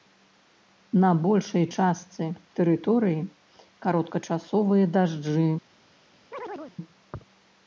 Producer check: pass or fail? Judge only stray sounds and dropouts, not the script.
fail